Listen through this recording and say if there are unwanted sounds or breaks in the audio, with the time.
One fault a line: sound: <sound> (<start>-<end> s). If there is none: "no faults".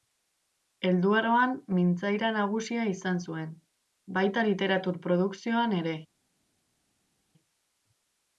no faults